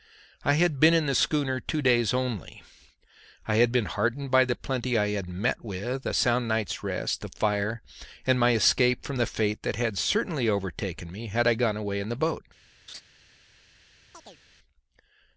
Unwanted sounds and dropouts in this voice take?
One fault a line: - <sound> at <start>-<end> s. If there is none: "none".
- laugh at 12.9-13.0 s
- chirp at 14.1-14.4 s